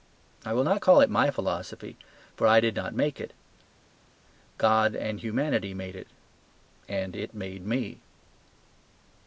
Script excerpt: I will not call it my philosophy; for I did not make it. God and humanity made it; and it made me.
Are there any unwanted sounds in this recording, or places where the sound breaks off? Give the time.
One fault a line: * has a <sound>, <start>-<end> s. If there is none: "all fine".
all fine